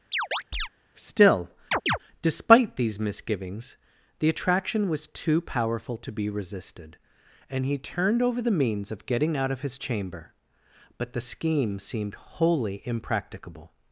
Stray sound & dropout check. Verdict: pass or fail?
fail